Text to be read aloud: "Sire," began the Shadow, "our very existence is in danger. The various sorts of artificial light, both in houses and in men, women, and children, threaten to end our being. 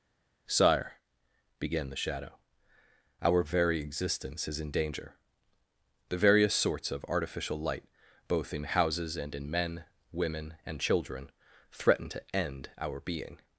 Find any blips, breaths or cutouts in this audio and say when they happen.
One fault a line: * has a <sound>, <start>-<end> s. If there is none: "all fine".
all fine